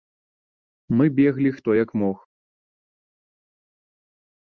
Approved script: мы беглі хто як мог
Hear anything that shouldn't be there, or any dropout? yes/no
no